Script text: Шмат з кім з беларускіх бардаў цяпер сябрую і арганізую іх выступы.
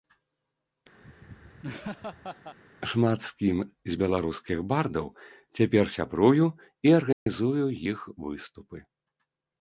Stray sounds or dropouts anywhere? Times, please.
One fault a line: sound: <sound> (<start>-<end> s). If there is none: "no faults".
sound: laugh (1.0-2.6 s)
sound: dropout (7.1-7.3 s)